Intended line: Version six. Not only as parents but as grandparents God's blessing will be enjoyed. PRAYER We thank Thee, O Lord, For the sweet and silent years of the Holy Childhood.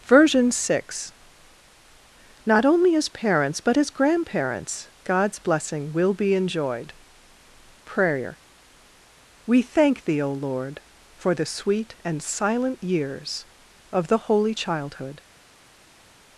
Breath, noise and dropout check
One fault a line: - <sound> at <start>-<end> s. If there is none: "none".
none